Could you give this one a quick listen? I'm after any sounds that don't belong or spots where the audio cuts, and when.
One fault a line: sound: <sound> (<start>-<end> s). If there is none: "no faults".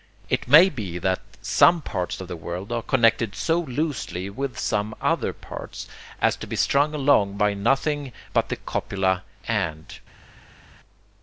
no faults